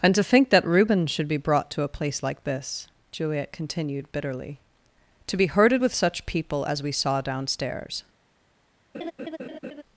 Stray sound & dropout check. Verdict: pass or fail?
fail